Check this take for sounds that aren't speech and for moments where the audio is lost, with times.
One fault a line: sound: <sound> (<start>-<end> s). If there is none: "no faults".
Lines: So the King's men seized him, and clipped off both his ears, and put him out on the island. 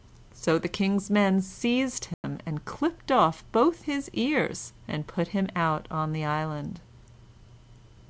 sound: dropout (2.1-2.2 s)